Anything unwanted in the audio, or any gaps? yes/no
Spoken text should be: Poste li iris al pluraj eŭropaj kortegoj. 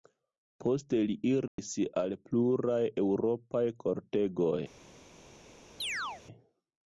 yes